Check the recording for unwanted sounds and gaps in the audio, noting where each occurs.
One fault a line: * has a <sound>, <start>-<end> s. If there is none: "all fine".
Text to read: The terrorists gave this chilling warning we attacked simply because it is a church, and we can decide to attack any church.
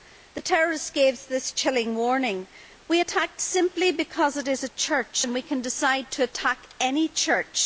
all fine